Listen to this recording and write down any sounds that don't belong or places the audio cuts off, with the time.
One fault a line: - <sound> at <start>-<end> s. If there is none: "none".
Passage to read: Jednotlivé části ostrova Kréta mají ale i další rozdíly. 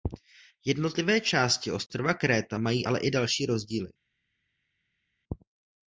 none